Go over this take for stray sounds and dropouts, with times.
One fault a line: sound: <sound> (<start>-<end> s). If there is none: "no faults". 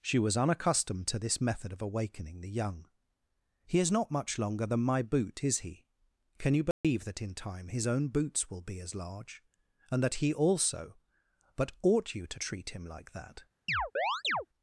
sound: dropout (6.7-6.8 s)
sound: chirp (13.7-14.5 s)